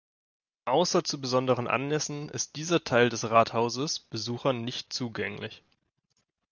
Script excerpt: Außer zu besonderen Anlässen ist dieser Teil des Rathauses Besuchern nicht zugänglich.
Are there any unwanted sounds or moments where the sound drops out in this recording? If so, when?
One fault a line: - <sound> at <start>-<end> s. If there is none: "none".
none